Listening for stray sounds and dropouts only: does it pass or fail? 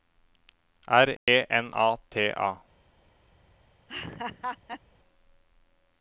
fail